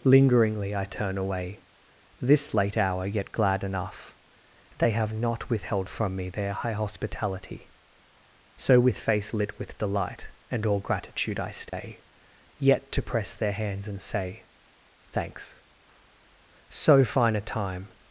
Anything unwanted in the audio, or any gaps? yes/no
yes